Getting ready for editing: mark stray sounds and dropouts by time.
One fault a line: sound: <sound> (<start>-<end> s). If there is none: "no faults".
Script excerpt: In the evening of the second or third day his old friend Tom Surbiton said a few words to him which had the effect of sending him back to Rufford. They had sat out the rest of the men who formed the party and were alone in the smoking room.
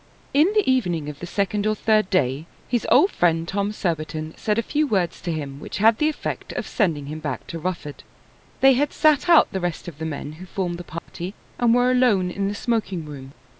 sound: dropout (11.0-11.1 s)